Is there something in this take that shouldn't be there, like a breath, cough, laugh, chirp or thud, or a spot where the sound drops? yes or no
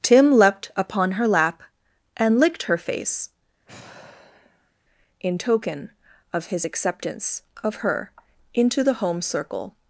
yes